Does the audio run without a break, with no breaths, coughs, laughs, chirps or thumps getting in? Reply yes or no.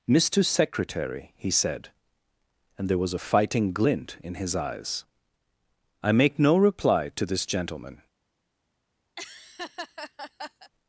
no